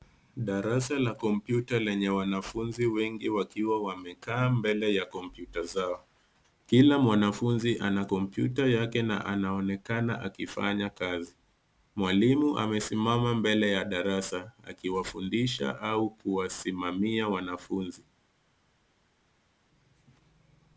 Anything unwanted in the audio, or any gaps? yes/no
no